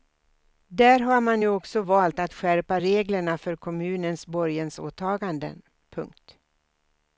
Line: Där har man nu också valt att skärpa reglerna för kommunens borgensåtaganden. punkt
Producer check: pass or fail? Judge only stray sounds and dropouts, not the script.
pass